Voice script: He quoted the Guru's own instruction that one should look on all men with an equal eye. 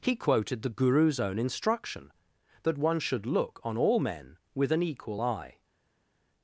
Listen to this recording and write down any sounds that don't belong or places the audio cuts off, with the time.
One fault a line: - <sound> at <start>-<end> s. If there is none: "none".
none